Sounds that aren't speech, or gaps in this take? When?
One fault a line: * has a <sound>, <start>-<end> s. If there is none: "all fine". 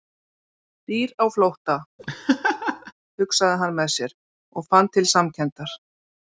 * has a laugh, 2.0-2.9 s